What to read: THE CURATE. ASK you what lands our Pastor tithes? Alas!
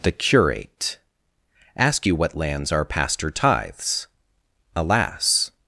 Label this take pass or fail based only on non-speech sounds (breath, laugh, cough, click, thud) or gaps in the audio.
pass